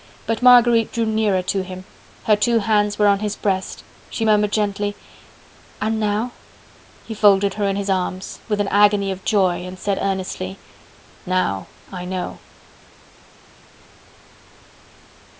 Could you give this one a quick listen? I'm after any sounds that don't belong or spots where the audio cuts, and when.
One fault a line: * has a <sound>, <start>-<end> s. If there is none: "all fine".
all fine